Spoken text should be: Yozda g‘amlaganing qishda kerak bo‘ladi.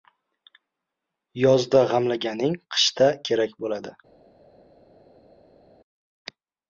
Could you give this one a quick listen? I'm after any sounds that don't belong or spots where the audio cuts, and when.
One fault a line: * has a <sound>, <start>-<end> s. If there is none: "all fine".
all fine